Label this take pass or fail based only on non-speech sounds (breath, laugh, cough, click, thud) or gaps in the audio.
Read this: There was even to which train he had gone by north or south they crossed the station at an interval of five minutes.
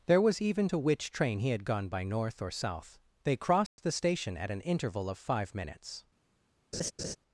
fail